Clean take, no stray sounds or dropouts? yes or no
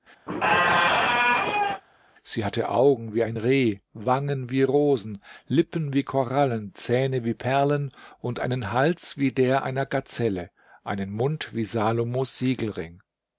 no